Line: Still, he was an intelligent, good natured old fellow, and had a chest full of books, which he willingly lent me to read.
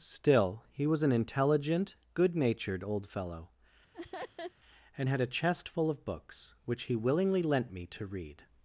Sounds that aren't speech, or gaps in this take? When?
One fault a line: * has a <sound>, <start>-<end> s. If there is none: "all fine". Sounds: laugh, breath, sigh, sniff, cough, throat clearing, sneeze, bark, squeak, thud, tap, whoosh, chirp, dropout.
* has a laugh, 3.9-4.5 s